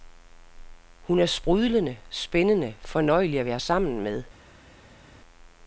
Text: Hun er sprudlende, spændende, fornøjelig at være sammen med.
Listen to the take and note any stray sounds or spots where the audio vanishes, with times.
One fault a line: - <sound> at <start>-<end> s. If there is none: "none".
none